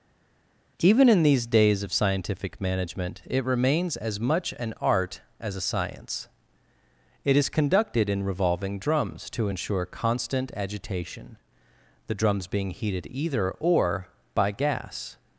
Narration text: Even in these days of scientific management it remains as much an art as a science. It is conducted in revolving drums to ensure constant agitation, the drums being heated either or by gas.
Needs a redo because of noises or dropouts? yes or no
no